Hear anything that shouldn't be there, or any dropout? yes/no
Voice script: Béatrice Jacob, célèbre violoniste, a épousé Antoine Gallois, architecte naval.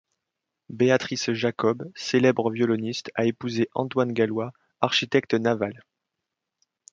no